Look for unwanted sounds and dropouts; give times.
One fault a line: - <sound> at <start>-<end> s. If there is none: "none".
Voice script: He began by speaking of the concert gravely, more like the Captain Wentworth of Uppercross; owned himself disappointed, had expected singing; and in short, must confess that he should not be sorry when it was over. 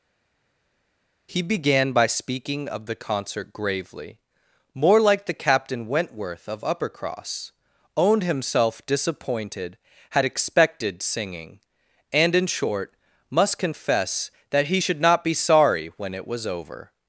none